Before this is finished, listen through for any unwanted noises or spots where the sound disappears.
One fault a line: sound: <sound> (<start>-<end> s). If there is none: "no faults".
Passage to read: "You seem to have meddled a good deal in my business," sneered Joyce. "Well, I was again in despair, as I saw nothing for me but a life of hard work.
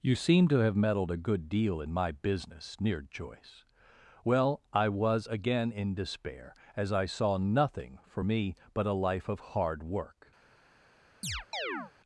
sound: chirp (11.2-11.9 s)